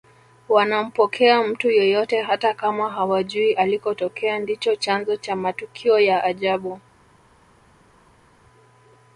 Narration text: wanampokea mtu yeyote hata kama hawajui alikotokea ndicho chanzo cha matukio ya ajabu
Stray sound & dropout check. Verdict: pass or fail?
pass